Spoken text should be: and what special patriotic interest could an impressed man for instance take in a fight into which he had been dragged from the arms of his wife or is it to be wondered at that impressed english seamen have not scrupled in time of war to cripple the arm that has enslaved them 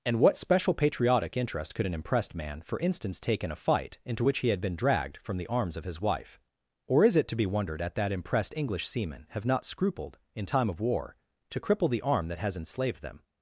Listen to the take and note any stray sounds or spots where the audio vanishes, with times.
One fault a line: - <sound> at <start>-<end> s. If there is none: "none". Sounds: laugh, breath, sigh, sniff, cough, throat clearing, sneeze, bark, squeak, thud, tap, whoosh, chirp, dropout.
none